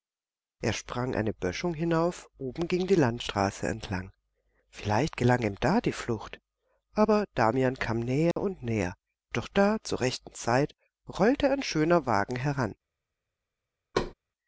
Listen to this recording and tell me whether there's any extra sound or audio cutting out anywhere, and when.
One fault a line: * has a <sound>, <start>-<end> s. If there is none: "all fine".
* has a dropout, 8.3-8.4 s
* has a thud, 13.9-14.1 s